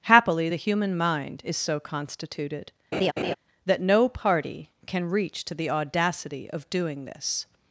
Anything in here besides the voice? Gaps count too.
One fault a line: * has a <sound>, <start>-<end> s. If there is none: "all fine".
* has a laugh, 2.9-3.3 s